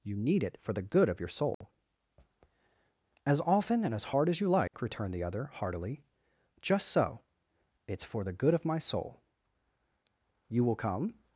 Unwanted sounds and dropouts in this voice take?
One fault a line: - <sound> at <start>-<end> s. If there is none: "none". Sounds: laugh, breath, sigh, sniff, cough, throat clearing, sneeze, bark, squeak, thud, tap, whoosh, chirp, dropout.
- dropout at 1.5-1.6 s
- dropout at 4.7-4.7 s